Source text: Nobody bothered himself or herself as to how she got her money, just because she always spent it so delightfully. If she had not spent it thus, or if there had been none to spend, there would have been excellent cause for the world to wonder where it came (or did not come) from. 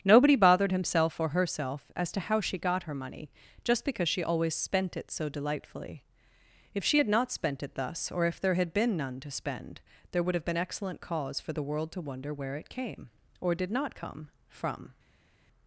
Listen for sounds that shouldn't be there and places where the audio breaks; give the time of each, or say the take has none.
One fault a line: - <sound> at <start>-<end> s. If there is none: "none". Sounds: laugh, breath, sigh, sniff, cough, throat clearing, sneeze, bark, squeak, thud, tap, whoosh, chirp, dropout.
none